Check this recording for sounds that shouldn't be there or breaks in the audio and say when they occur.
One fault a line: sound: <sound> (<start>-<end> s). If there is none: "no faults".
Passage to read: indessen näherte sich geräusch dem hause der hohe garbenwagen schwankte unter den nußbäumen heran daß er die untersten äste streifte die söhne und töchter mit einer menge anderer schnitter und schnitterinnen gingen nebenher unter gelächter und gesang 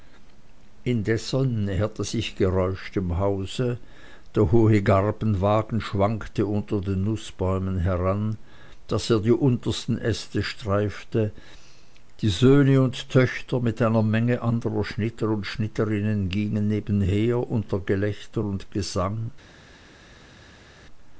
no faults